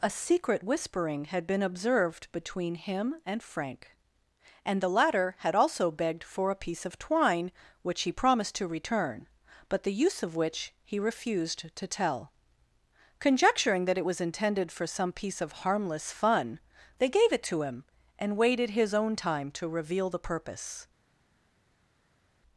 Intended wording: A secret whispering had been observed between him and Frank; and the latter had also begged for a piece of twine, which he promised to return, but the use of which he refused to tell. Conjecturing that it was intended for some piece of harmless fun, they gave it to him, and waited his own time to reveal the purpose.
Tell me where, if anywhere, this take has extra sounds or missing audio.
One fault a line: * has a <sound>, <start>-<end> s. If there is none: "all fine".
all fine